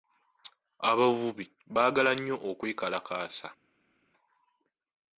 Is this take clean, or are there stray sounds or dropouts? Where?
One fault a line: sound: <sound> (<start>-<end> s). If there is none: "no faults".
no faults